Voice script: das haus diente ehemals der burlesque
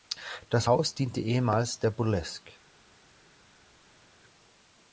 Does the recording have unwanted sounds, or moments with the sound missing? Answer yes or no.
no